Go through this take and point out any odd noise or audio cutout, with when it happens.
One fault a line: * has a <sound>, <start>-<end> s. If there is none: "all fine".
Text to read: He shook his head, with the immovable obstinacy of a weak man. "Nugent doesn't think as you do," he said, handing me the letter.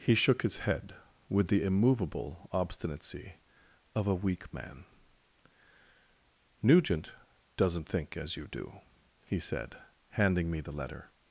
all fine